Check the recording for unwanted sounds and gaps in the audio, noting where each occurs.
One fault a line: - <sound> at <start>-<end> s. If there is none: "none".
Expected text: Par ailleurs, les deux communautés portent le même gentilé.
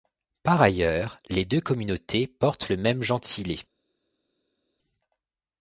none